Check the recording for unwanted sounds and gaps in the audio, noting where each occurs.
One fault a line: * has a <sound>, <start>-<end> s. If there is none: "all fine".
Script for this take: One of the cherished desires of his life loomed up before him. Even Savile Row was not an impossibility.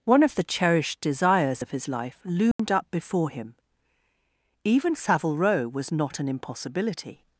* has a dropout, 2.5-2.6 s